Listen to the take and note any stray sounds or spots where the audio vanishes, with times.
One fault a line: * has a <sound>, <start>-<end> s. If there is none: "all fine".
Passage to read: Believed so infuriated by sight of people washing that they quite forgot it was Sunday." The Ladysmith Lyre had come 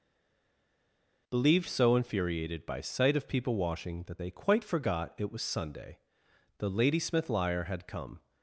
all fine